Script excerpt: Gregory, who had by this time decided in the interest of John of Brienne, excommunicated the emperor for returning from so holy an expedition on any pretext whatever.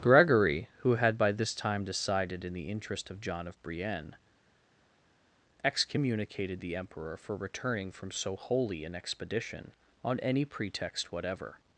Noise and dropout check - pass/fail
pass